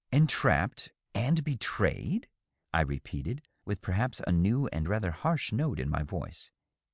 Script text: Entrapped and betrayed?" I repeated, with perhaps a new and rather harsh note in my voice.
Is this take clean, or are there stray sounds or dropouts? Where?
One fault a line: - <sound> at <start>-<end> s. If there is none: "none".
none